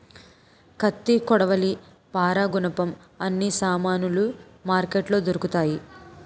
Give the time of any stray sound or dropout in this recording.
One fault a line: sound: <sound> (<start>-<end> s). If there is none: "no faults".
no faults